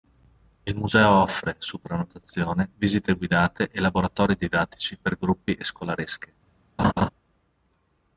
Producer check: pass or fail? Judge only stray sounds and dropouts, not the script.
fail